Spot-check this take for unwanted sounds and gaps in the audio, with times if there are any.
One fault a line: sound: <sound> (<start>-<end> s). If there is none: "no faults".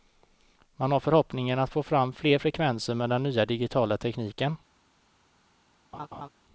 sound: laugh (5.9-6.3 s)